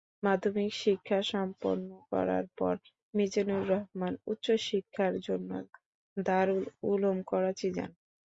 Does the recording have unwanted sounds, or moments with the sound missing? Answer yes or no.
no